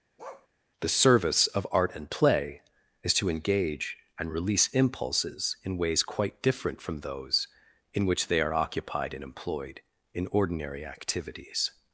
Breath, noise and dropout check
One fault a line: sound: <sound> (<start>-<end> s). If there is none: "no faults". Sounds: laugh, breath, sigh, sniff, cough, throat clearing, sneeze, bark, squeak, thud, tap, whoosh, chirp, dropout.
sound: bark (0.2-0.5 s)